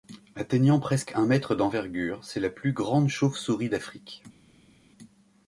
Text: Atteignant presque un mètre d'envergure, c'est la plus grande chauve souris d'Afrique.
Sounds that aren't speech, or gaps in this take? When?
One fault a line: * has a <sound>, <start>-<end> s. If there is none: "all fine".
all fine